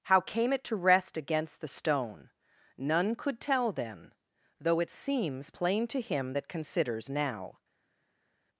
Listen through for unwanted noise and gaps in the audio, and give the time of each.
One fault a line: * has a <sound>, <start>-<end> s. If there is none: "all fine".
all fine